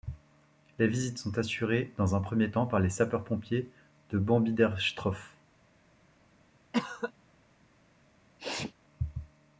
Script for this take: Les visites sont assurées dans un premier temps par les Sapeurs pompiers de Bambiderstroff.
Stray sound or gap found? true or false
true